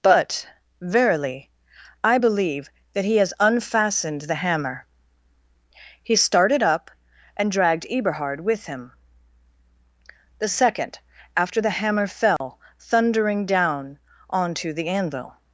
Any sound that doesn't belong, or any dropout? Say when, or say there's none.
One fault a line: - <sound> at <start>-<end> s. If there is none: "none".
- dropout at 12.4-12.4 s